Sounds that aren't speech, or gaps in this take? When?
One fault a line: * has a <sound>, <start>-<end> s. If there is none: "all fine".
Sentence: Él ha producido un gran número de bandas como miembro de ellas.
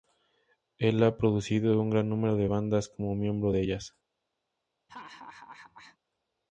* has a laugh, 4.9-6.0 s